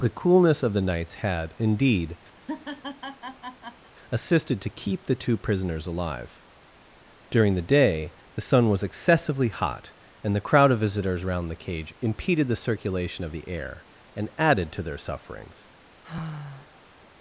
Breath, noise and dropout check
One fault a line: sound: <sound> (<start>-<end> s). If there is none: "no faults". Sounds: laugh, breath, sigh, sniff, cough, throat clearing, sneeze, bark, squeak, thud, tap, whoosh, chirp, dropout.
sound: laugh (2.4-3.9 s)
sound: sigh (16.0-16.9 s)